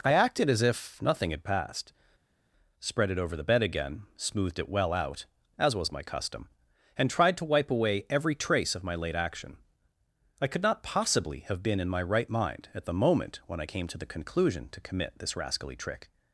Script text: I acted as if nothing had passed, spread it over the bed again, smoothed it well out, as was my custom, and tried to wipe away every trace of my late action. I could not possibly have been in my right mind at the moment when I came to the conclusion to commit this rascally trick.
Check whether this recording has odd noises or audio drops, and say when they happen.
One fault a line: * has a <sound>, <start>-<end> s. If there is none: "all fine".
all fine